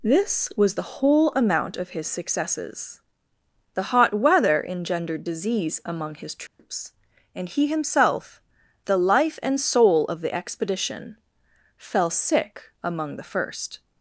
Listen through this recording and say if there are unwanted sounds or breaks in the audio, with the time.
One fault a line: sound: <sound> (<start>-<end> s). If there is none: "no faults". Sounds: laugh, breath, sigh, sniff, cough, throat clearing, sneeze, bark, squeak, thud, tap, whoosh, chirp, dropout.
sound: dropout (6.5-6.6 s)